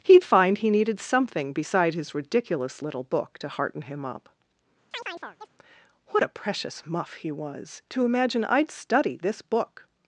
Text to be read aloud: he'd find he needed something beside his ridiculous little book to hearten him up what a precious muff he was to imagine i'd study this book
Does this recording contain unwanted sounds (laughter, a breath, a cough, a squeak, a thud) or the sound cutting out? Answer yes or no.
yes